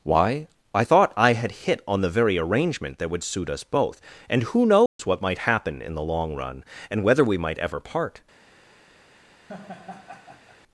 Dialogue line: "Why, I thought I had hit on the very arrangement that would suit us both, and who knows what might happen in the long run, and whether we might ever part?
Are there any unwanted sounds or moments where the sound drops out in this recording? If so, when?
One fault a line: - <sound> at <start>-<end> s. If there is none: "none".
- dropout at 4.9-5.0 s
- laugh at 9.5-10.6 s